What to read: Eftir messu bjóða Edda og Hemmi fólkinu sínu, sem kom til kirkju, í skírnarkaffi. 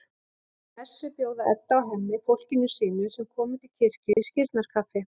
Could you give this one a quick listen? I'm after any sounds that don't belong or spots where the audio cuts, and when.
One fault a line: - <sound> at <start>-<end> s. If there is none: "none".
- dropout at 4.1-4.2 s